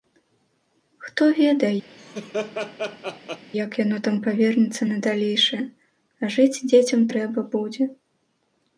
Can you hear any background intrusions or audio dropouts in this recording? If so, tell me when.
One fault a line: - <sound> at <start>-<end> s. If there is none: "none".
- laugh at 1.9-3.5 s